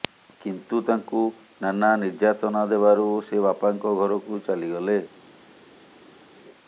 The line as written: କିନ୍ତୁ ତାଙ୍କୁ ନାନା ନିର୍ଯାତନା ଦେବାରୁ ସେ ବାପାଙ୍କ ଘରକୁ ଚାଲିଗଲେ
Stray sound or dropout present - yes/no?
no